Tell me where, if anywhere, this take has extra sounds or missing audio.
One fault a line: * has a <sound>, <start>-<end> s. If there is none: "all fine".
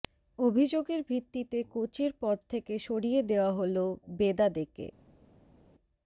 all fine